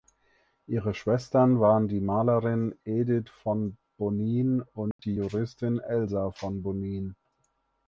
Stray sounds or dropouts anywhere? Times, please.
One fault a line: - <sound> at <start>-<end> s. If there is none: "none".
- dropout at 4.9-5.0 s